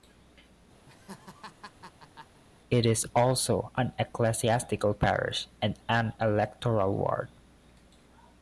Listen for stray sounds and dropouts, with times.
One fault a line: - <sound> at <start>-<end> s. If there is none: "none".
- laugh at 0.9-2.4 s